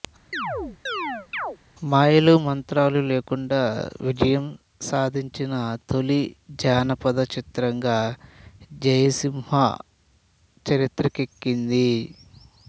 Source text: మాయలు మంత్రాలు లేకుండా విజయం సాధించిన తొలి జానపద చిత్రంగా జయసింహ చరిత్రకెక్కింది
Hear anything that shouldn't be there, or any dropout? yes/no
yes